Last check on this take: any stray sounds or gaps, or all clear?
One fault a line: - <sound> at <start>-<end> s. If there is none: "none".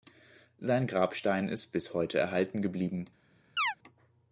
- chirp at 3.6-3.7 s